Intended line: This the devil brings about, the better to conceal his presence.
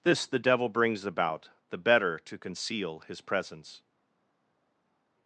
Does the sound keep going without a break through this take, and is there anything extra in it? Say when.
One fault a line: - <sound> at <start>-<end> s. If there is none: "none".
none